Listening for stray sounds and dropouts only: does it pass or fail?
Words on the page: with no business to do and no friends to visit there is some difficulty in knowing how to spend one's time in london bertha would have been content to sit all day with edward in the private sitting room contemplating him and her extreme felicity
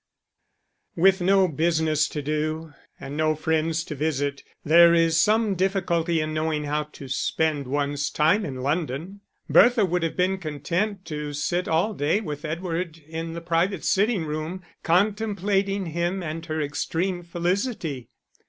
pass